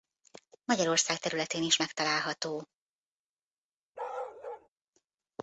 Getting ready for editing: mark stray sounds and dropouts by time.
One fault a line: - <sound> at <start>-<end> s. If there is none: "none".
- bark at 3.9-4.7 s